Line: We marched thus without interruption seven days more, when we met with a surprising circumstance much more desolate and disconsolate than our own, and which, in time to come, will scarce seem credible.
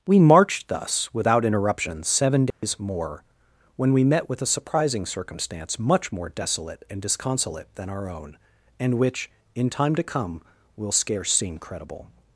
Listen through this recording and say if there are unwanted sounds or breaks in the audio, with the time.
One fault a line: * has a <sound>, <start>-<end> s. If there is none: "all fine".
* has a dropout, 2.5-2.6 s